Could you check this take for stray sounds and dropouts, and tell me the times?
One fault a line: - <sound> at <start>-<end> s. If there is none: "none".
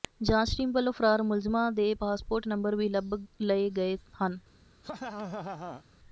- laugh at 4.8-5.8 s